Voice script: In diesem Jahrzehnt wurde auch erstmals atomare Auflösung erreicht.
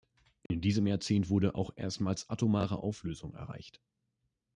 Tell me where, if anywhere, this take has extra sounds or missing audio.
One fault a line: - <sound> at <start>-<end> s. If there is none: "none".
- dropout at 0.5-0.5 s